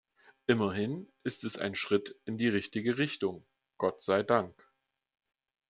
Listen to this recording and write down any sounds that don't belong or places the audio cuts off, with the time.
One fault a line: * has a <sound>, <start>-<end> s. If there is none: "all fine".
all fine